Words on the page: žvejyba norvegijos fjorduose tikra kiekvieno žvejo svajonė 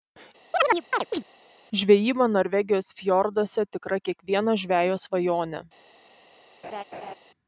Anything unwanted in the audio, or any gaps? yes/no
yes